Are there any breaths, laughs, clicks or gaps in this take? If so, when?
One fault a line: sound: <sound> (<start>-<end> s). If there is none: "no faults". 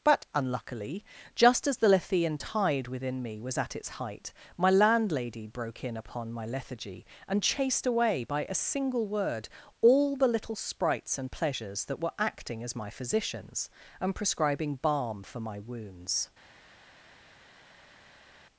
no faults